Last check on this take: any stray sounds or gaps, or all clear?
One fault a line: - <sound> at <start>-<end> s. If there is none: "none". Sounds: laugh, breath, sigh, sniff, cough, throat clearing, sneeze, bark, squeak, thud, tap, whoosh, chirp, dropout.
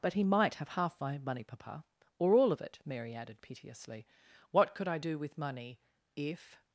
none